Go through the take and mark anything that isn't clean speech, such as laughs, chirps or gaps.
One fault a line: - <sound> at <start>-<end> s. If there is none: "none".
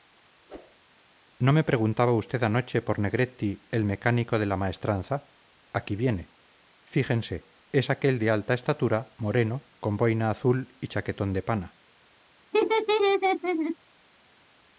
- whoosh at 0.5-0.8 s
- laugh at 12.5-13.8 s